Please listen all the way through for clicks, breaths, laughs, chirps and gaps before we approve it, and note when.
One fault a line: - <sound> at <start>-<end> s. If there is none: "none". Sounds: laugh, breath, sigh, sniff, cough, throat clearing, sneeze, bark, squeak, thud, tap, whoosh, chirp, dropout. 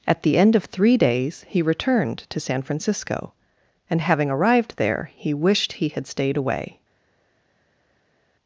none